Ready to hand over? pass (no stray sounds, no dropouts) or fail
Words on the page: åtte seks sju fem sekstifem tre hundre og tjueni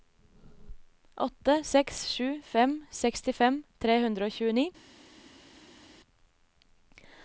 pass